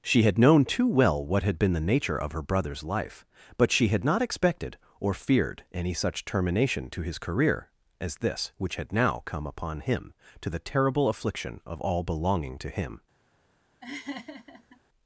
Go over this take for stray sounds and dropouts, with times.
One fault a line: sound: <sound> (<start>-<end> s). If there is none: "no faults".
sound: laugh (13.8-14.8 s)